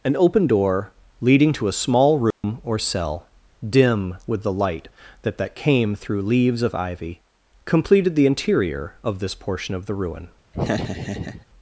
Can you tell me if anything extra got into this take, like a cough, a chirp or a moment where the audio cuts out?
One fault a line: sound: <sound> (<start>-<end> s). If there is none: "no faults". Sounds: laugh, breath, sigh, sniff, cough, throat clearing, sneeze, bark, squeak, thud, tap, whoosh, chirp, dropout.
sound: dropout (2.3-2.4 s)
sound: laugh (10.5-11.5 s)